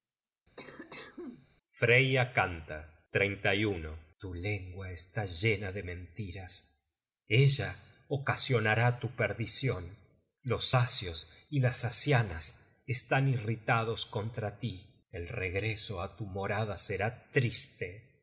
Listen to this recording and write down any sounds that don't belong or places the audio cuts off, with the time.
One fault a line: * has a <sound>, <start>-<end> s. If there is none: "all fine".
* has a cough, 0.6-1.5 s